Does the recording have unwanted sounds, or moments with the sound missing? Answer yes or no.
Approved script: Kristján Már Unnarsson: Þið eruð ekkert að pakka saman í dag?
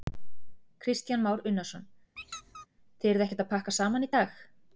yes